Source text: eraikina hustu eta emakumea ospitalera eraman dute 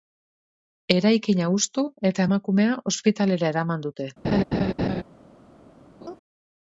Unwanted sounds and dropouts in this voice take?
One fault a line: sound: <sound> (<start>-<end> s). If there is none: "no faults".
sound: laugh (4.2-5.0 s)
sound: laugh (6.0-6.2 s)